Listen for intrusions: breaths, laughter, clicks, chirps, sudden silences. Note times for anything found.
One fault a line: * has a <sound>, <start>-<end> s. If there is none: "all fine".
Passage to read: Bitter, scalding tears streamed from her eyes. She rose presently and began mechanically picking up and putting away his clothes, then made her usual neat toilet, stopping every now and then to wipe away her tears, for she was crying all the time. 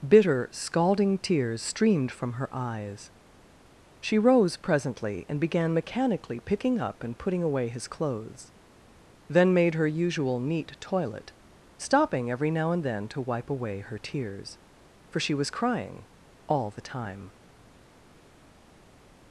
all fine